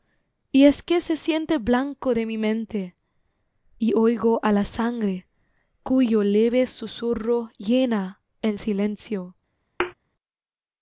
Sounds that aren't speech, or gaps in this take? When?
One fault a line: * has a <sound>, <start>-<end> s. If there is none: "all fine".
* has a thud, 9.8-9.9 s